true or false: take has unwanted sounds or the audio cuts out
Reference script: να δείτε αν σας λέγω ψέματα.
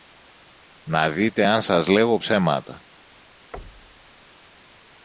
true